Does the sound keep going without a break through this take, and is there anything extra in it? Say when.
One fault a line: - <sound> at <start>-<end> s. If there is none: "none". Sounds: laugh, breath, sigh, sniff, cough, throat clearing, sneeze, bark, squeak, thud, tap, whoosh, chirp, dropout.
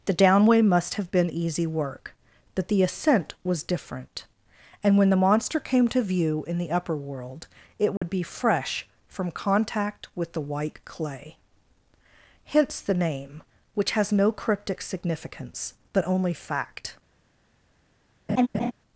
- dropout at 8.0-8.0 s
- laugh at 18.3-18.7 s